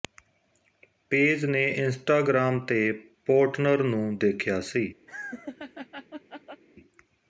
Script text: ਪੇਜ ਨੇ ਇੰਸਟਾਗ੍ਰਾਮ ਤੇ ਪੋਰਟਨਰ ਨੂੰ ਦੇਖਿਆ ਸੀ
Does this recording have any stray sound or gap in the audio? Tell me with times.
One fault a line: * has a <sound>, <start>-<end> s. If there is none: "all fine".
* has a laugh, 5.1-6.6 s